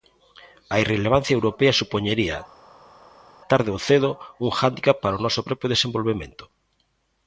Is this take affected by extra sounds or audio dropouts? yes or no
no